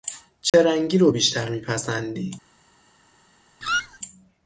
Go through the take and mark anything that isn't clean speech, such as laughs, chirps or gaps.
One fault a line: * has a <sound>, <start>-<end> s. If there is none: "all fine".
* has a dropout, 0.5-0.5 s
* has a squeak, 3.6-4.0 s